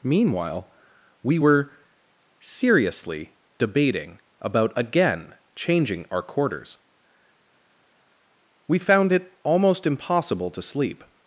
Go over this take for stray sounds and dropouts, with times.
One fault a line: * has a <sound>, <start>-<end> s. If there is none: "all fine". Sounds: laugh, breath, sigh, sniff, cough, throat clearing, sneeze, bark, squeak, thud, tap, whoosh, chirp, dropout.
all fine